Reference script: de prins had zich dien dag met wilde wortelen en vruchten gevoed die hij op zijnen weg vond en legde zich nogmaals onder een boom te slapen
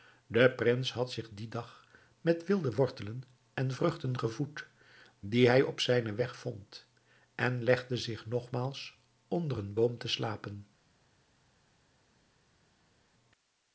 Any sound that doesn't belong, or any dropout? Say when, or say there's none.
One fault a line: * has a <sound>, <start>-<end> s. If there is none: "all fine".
all fine